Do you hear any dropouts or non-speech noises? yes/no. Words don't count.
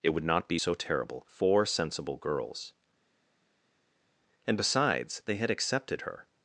no